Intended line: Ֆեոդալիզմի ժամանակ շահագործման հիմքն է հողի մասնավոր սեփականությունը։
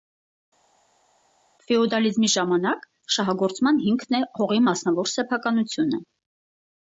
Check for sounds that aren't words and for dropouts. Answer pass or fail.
pass